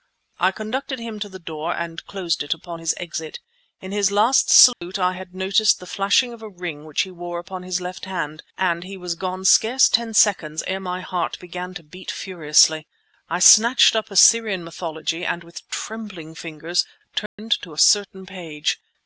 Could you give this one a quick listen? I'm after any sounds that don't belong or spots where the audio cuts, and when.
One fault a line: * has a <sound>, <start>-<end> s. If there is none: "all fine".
* has a dropout, 4.7-4.8 s
* has a dropout, 17.3-17.4 s